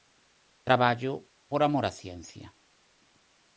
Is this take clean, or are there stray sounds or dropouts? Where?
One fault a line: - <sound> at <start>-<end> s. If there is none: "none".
none